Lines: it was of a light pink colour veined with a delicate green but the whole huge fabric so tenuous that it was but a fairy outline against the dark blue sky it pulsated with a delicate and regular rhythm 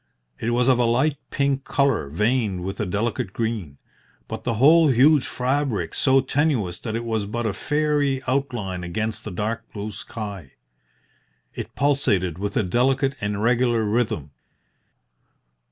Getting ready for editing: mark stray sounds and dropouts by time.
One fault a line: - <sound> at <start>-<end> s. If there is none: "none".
none